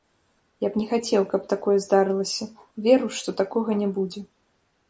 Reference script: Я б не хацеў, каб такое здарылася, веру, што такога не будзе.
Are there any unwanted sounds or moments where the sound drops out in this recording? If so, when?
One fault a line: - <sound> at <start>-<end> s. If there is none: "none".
none